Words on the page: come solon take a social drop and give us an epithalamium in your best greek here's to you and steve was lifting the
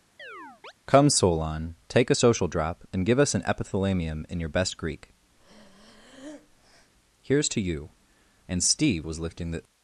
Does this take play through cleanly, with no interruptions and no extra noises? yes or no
no